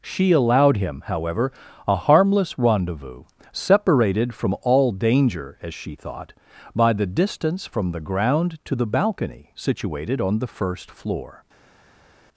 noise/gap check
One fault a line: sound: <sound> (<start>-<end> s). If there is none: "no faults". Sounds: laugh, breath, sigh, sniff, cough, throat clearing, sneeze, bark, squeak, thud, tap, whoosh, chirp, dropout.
no faults